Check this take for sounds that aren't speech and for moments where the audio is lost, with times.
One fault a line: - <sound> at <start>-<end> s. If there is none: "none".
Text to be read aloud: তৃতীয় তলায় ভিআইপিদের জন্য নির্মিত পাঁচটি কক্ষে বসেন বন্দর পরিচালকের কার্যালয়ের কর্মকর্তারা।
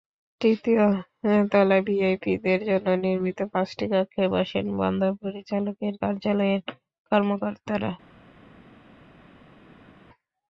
none